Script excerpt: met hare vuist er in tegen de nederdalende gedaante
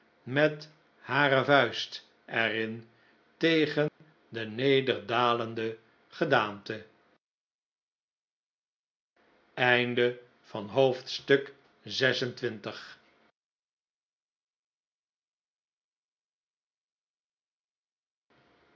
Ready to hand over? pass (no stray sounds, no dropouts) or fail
fail